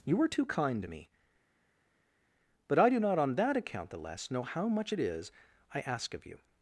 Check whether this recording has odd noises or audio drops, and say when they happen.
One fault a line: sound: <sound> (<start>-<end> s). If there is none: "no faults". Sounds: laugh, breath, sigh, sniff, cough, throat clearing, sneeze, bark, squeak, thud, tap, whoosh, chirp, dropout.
no faults